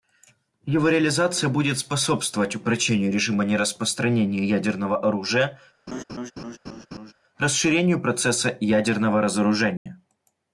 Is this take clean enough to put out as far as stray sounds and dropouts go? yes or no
no